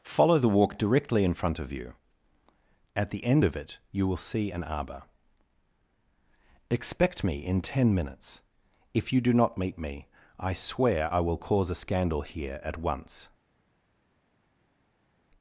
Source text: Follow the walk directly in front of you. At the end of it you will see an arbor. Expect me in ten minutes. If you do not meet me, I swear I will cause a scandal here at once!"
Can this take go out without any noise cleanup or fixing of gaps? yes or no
yes